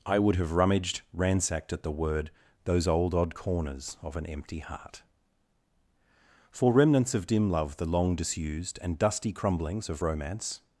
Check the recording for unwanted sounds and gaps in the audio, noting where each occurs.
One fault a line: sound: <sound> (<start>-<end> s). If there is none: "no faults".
no faults